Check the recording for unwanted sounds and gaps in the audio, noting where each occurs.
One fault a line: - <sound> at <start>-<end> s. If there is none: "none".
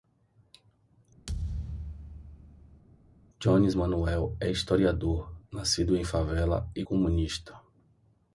- thud at 1.3-2.8 s